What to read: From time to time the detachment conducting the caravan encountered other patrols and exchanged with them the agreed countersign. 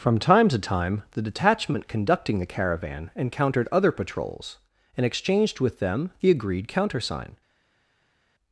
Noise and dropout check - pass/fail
pass